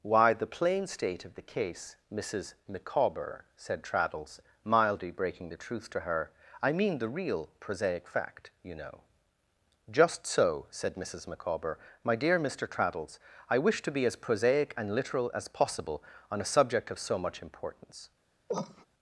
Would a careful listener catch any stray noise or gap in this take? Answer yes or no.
yes